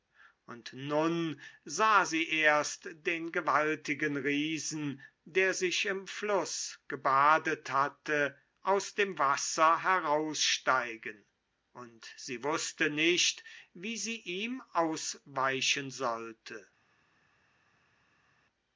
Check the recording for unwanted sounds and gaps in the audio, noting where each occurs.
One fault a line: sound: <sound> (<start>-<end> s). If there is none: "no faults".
no faults